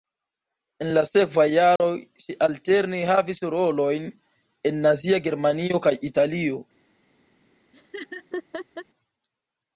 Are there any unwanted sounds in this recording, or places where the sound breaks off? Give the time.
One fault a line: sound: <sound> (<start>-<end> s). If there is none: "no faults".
sound: dropout (1.8-1.8 s)
sound: laugh (7.7-8.9 s)